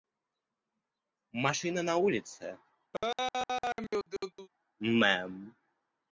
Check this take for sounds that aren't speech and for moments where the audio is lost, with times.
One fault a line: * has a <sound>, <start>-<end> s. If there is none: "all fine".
* has a laugh, 2.9-4.5 s